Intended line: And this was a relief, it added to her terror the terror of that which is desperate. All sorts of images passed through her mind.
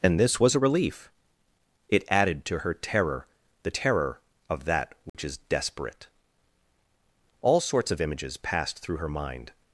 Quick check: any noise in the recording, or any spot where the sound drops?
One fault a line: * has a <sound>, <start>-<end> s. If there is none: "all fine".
* has a dropout, 5.1-5.1 s